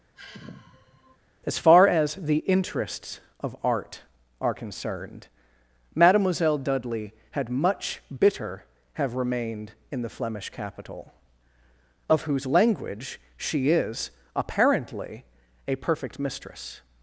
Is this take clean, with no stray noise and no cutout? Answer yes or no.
no